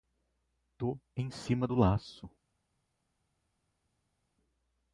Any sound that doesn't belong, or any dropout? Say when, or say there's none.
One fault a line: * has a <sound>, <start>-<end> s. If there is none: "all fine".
all fine